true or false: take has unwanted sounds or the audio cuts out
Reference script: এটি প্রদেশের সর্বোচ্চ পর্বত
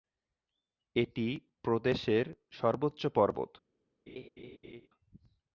true